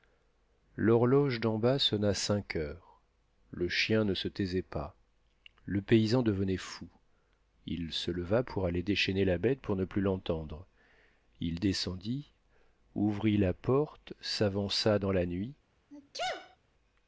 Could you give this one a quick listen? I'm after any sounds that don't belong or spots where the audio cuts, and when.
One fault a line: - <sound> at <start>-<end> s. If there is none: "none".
- sneeze at 15.9-16.6 s